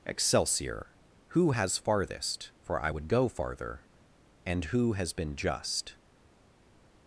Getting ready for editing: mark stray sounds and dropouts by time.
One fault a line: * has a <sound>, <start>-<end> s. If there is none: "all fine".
all fine